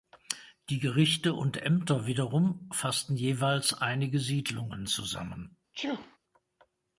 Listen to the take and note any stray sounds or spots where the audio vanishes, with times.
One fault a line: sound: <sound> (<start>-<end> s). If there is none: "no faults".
sound: sneeze (5.7-6.2 s)